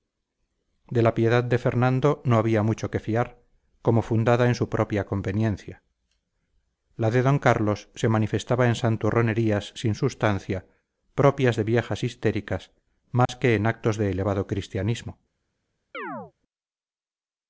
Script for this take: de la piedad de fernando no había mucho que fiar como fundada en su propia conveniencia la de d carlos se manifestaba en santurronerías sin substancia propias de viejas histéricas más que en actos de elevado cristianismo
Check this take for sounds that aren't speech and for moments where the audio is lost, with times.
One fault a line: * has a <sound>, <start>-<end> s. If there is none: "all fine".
* has a dropout, 13.3-13.3 s
* has a chirp, 15.9-16.3 s